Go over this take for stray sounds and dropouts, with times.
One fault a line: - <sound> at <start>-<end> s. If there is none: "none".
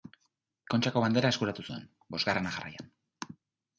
none